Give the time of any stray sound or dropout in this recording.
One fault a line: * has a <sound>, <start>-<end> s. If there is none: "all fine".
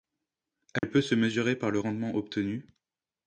* has a dropout, 0.8-0.8 s